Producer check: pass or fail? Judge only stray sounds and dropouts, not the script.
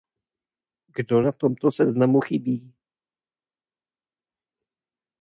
pass